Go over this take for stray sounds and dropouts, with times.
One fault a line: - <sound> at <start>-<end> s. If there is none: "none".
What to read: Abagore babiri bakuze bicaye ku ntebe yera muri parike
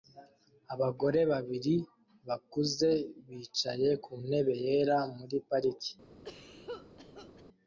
- cough at 6.2-7.4 s